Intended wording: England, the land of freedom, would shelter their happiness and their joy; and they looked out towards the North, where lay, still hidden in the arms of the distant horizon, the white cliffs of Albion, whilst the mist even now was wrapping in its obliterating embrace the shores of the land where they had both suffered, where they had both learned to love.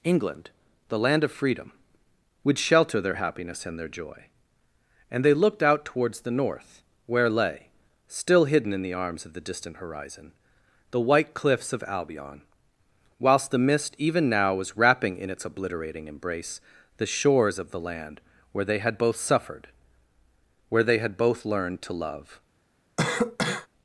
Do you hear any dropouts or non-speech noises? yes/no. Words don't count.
yes